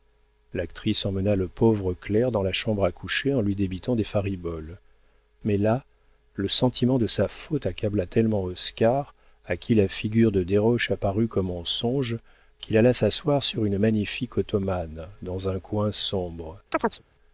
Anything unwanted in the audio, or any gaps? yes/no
yes